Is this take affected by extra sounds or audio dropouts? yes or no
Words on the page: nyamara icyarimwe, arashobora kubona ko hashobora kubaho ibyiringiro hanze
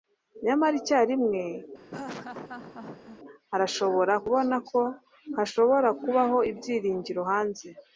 yes